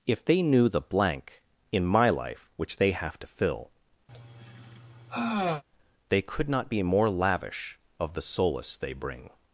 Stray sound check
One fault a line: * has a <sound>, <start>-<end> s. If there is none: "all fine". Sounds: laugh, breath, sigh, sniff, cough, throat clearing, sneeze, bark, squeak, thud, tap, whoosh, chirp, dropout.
* has a sigh, 4.1-5.6 s